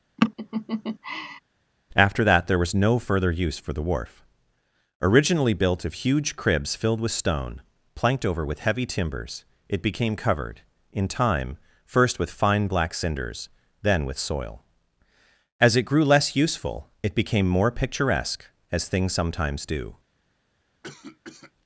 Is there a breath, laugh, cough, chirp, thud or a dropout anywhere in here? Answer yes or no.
yes